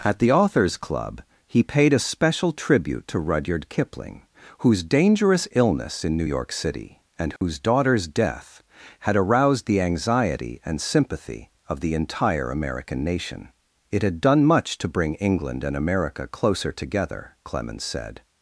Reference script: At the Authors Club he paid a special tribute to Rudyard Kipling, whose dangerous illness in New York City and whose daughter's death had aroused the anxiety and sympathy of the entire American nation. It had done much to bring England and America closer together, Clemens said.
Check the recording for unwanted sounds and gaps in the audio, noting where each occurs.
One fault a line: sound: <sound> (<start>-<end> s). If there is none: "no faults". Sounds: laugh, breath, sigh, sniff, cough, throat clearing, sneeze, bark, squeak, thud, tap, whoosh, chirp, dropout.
sound: dropout (7.4-7.4 s)